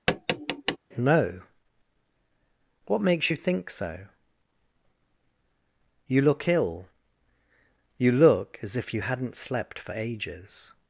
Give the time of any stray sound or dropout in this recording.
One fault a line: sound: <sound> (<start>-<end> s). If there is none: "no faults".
sound: tap (0.1-0.8 s)